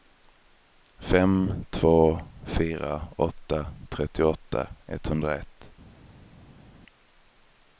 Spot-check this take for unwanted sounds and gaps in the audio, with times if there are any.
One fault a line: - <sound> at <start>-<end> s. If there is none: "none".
none